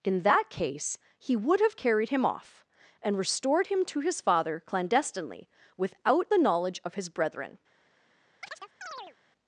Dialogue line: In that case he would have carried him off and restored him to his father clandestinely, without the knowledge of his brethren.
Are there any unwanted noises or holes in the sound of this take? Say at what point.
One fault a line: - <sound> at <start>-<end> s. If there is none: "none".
- chirp at 8.4-9.2 s